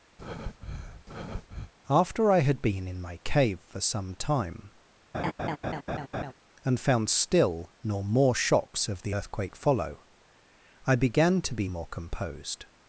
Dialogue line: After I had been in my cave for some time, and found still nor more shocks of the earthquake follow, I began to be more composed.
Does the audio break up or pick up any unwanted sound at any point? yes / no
yes